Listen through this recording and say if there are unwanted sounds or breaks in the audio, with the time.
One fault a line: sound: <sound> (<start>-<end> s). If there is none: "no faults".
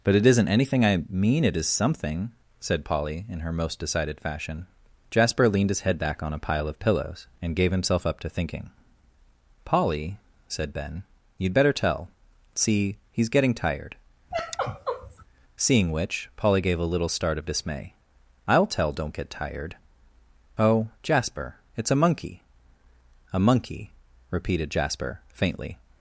sound: sigh (14.3-15.2 s)